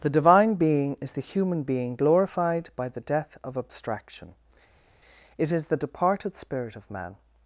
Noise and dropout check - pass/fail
pass